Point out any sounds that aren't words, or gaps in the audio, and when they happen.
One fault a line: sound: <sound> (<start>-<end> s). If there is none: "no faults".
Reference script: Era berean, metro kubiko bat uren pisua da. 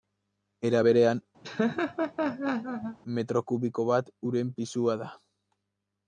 sound: laugh (1.4-3.0 s)